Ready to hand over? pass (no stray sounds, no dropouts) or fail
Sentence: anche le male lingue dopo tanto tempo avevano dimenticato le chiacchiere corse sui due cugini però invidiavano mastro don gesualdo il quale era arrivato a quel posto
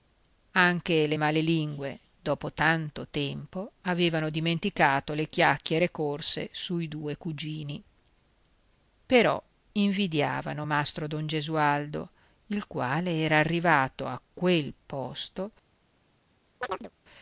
fail